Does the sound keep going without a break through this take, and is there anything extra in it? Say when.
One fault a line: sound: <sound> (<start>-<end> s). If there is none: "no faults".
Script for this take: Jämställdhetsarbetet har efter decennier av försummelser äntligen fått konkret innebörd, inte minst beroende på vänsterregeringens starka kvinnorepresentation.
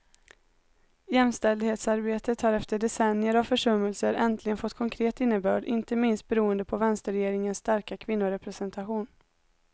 no faults